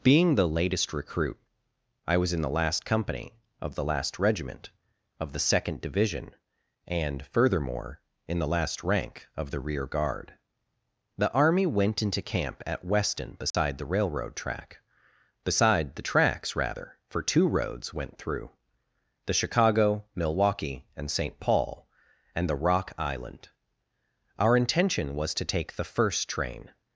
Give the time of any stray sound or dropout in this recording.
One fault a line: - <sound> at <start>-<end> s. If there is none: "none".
- dropout at 13.5-13.5 s